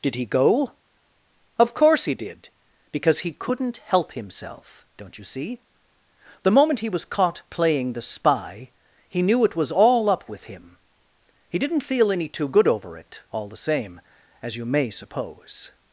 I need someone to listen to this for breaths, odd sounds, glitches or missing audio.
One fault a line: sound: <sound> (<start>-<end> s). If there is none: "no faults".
no faults